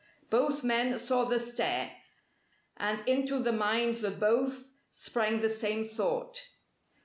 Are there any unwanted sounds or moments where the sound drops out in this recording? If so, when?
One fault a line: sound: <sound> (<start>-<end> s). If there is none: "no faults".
no faults